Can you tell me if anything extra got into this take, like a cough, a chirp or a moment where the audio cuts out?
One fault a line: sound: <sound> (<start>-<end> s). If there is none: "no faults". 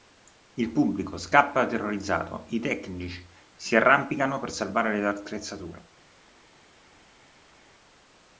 no faults